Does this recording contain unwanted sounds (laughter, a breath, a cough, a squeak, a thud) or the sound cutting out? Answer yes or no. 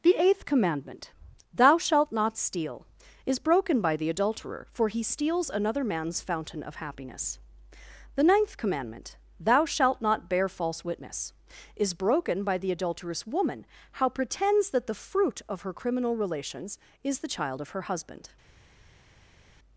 no